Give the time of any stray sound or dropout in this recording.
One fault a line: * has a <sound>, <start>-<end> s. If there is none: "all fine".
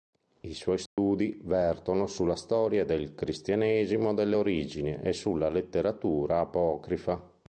* has a dropout, 0.9-1.0 s